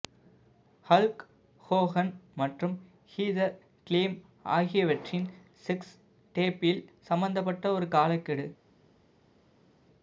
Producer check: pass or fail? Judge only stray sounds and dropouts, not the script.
pass